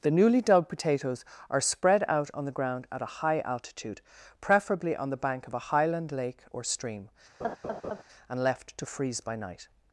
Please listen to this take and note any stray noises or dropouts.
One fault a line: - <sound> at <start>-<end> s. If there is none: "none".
- laugh at 7.4-8.0 s